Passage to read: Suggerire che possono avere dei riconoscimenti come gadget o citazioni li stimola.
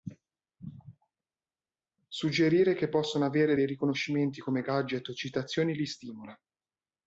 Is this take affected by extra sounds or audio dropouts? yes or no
no